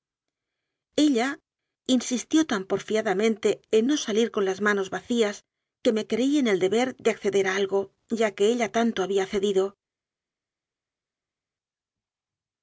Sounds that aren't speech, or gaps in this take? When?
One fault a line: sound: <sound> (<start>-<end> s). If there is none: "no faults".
no faults